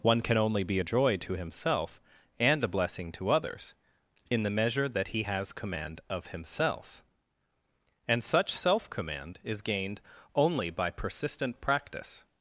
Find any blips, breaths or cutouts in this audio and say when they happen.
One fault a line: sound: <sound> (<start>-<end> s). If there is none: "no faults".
no faults